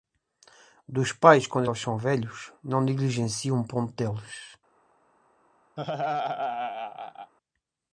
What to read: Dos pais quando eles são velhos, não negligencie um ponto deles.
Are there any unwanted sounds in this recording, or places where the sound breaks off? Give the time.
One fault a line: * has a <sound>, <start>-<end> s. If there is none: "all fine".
* has a laugh, 5.8-7.3 s